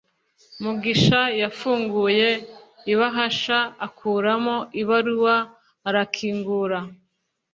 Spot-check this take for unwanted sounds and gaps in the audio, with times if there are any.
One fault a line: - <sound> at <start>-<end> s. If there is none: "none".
none